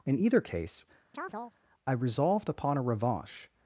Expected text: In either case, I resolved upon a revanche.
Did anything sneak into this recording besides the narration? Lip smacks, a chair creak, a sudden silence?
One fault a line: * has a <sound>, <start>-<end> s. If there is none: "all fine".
* has a chirp, 1.1-1.6 s